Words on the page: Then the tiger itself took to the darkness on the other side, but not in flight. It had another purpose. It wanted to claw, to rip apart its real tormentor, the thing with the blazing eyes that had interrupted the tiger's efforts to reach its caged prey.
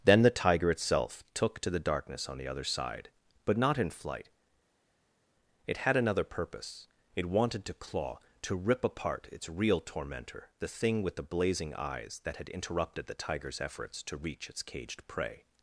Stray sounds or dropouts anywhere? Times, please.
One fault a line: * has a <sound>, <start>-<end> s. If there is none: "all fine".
all fine